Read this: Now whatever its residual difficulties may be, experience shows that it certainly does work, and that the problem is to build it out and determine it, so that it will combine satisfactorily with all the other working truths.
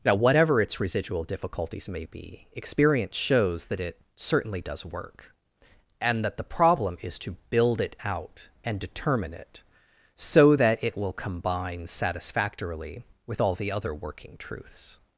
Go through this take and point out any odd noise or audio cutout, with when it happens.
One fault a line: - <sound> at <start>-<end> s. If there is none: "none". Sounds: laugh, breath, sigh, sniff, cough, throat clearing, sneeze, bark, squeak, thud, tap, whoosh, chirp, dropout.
none